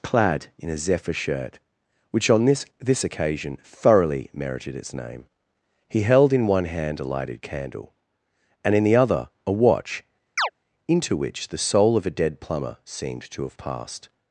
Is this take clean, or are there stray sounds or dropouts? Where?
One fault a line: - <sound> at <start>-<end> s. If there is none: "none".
- chirp at 10.4-10.5 s